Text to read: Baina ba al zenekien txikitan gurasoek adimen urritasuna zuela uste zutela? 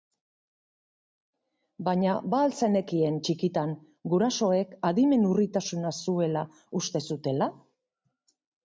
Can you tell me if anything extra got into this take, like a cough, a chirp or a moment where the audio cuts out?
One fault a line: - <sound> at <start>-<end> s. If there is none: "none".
none